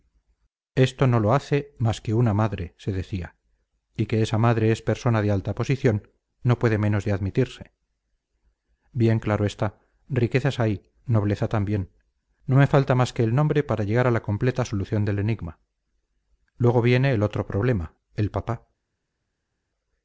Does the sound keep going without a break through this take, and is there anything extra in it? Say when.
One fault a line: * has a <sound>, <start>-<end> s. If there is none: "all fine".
all fine